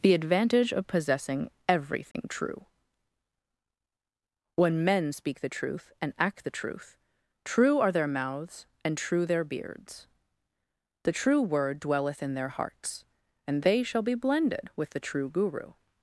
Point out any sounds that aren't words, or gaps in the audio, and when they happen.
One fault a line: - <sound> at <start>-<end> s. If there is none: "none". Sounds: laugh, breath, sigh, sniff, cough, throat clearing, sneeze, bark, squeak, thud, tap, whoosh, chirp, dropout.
- dropout at 2.1-2.1 s